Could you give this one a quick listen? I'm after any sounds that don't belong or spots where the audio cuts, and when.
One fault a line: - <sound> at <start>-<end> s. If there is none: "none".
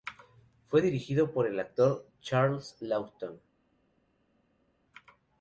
none